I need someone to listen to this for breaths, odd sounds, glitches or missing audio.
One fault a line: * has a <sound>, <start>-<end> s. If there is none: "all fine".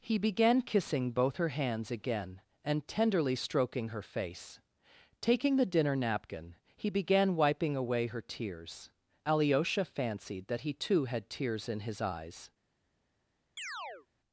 * has a chirp, 13.6-14.1 s